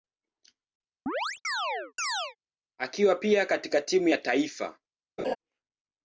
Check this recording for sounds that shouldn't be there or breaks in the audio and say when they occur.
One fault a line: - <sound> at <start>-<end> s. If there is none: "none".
- chirp at 1.1-2.4 s
- laugh at 5.2-5.4 s